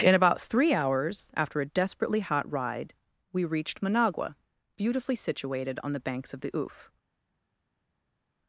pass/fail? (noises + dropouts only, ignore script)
pass